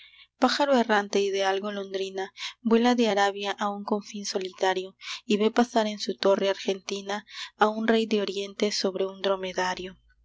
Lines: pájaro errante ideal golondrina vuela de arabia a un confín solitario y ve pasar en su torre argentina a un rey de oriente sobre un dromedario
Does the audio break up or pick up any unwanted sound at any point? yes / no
no